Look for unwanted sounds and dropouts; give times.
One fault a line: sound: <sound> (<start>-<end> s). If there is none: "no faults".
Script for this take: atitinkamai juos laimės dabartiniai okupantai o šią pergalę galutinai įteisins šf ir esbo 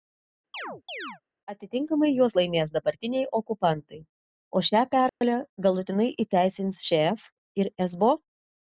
sound: chirp (0.5-1.2 s)
sound: dropout (5.1-5.2 s)